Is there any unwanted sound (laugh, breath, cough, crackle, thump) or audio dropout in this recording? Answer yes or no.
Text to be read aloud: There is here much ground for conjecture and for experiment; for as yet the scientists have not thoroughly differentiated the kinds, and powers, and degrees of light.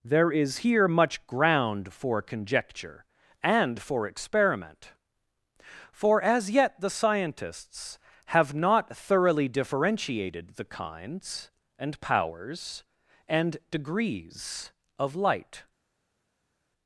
no